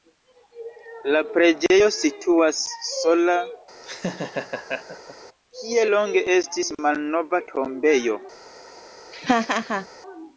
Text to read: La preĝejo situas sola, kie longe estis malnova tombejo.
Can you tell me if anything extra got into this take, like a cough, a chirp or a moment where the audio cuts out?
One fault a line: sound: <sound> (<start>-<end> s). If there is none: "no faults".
sound: laugh (3.8-5.2 s)
sound: laugh (9.1-9.9 s)